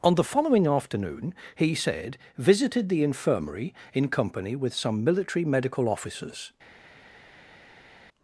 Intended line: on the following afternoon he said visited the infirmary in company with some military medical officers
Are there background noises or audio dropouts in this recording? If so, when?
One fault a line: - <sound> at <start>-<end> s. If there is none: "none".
none